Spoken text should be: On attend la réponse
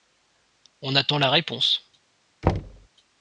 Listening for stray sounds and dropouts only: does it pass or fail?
fail